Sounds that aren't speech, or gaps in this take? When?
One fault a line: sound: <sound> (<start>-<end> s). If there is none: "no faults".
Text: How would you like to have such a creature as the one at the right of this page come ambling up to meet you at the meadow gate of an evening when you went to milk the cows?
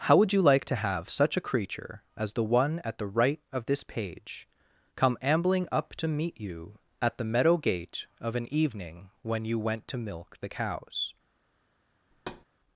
sound: thud (12.1-12.5 s)